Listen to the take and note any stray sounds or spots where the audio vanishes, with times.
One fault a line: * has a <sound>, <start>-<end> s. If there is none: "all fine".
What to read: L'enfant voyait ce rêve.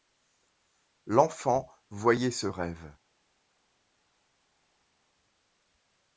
all fine